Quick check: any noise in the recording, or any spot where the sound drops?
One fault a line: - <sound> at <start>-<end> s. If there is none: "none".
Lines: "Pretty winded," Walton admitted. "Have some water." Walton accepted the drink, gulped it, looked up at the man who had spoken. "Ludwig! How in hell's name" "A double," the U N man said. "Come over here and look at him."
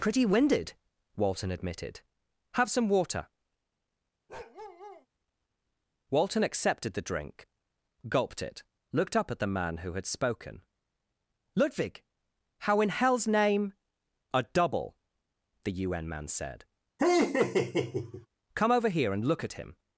- bark at 4.3-5.1 s
- laugh at 17.0-18.3 s